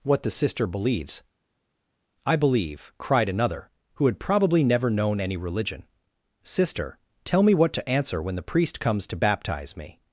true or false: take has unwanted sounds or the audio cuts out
false